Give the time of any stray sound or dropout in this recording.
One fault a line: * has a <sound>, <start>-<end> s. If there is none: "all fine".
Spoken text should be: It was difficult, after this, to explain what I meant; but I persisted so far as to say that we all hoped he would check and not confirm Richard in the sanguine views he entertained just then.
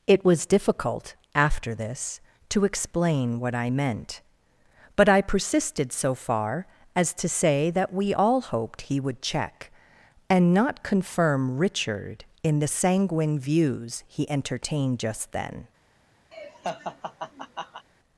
* has a laugh, 16.3-17.9 s